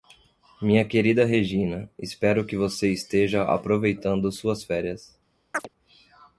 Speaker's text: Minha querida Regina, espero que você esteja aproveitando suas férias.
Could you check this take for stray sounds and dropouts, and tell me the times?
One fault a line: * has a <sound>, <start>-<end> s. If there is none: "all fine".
* has a chirp, 5.5-5.7 s